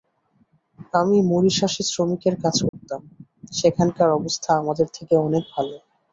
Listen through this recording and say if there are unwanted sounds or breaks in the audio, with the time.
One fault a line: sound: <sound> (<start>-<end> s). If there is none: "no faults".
sound: dropout (2.7-2.7 s)